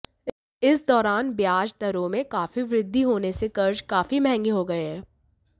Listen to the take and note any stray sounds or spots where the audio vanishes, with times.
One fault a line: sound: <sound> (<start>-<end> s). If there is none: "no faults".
no faults